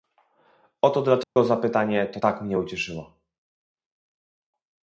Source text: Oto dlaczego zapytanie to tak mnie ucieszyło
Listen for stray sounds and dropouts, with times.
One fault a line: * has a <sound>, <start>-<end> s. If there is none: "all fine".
* has a dropout, 1.2-1.4 s